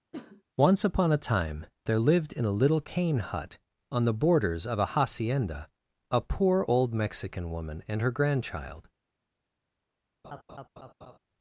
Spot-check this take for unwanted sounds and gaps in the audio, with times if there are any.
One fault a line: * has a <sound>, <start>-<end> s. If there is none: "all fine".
* has a cough, 0.1-0.4 s
* has a laugh, 10.2-11.2 s